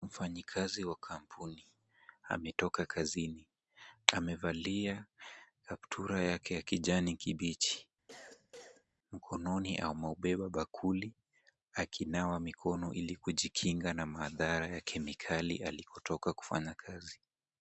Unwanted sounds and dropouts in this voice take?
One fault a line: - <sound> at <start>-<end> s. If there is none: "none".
- cough at 8.1-8.9 s